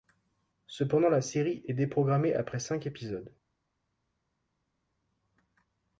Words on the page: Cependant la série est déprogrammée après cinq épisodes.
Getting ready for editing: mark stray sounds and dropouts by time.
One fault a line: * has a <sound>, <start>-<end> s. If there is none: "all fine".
all fine